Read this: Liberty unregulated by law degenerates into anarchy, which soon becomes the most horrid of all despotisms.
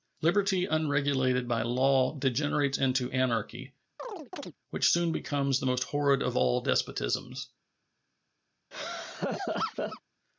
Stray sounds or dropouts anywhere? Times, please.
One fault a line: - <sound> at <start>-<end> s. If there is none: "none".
- chirp at 4.0-4.6 s
- laugh at 8.7-10.0 s